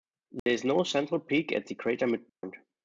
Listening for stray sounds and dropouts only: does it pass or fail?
fail